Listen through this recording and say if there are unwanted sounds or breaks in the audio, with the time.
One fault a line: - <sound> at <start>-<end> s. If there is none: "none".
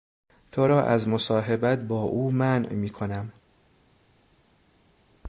none